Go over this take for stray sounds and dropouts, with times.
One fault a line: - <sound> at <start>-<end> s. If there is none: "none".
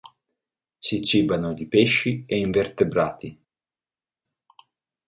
none